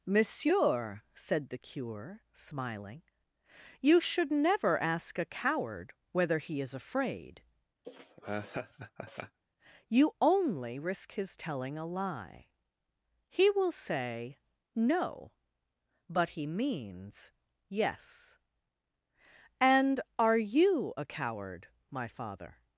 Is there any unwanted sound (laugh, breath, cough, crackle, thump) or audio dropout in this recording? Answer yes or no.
yes